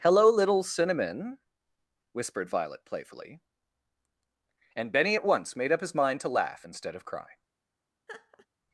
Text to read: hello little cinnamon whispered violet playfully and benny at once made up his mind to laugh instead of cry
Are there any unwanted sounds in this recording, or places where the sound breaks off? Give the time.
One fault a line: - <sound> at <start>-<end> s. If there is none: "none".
- laugh at 8.1-8.5 s